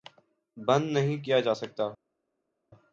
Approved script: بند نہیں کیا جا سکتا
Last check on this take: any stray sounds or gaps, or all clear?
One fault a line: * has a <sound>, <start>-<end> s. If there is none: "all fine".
all fine